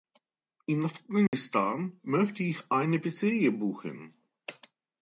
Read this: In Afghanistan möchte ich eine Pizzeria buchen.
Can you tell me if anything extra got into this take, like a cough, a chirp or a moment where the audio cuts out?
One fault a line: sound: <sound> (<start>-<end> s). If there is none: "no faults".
sound: dropout (1.3-1.3 s)